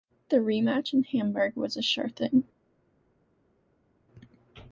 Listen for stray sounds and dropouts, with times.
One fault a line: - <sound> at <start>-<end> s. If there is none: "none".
none